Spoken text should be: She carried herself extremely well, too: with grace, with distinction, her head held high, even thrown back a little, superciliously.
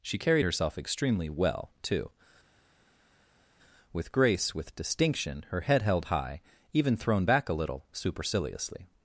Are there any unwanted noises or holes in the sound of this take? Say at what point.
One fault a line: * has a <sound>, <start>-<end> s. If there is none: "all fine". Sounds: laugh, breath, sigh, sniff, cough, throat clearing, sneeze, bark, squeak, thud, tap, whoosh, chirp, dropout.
all fine